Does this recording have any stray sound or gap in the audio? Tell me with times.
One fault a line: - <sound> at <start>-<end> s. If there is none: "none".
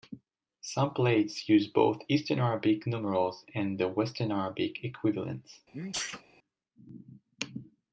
- sneeze at 5.7-6.2 s